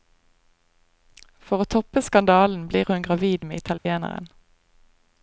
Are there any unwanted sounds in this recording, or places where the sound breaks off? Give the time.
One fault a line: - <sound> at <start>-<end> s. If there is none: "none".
- dropout at 3.8-3.9 s